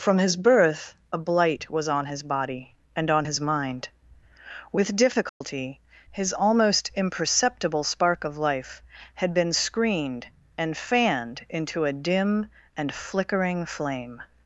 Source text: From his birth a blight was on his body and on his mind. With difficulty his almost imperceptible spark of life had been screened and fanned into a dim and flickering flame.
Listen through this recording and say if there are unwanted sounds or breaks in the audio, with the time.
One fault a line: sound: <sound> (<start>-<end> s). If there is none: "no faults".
sound: dropout (5.3-5.4 s)